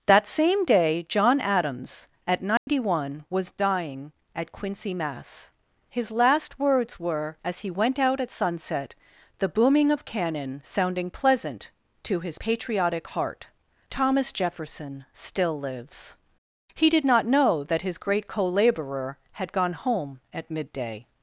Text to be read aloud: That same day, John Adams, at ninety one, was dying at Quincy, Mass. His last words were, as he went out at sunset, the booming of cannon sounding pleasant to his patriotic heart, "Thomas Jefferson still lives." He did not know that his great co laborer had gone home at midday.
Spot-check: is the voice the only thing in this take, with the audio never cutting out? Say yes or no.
no